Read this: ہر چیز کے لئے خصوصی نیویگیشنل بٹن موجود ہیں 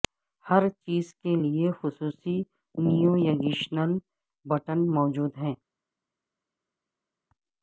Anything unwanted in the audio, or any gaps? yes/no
no